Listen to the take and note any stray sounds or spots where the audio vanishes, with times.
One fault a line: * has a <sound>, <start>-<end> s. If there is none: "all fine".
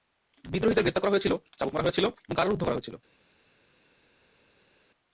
all fine